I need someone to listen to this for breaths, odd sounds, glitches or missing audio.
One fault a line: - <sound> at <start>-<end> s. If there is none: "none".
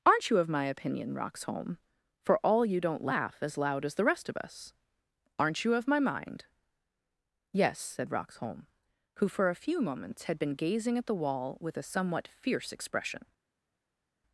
none